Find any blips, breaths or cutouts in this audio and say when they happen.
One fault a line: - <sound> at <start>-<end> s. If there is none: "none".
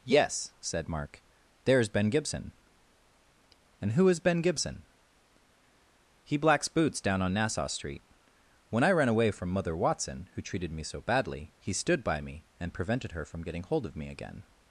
none